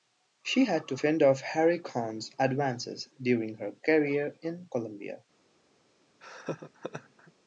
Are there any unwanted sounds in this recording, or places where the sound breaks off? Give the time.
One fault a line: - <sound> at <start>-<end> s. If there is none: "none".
- laugh at 6.2-7.3 s